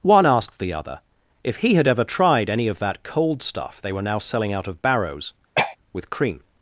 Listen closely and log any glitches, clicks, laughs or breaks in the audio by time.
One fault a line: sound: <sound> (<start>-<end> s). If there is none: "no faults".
sound: throat clearing (5.5-5.8 s)